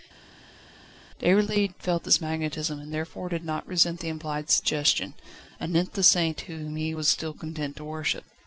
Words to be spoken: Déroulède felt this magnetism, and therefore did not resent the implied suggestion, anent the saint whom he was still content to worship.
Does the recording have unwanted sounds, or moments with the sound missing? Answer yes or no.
no